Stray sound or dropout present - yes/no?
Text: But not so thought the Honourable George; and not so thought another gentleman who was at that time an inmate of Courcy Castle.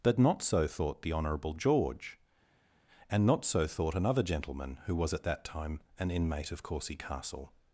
no